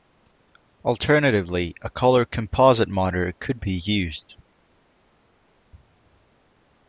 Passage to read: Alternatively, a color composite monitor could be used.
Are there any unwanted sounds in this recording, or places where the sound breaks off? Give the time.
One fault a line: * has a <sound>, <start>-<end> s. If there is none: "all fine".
all fine